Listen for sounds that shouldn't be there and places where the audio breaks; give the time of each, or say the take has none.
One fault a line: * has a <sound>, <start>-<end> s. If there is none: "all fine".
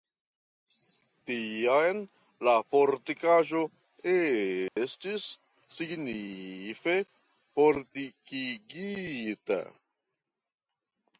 * has a dropout, 4.7-4.8 s